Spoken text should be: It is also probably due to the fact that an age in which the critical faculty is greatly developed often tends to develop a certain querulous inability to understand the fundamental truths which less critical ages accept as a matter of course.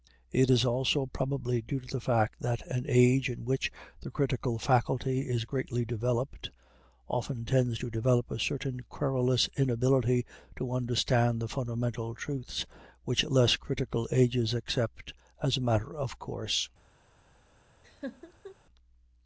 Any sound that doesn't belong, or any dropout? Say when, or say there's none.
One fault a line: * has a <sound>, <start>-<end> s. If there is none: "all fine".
* has a laugh, 17.8-18.6 s